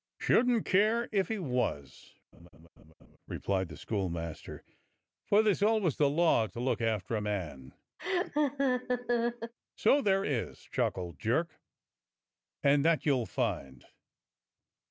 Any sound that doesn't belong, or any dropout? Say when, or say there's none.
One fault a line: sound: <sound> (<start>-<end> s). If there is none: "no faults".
sound: laugh (2.3-3.2 s)
sound: laugh (8.0-9.5 s)